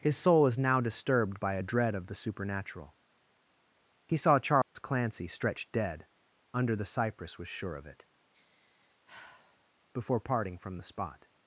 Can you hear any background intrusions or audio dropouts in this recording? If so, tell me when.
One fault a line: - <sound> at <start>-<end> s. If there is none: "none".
- dropout at 4.6-4.8 s
- sigh at 8.3-9.7 s